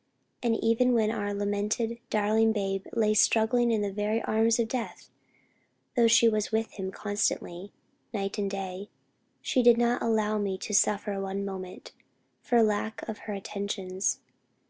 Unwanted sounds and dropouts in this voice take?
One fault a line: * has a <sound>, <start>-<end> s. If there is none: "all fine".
all fine